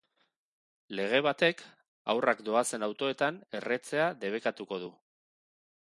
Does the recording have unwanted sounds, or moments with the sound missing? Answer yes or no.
no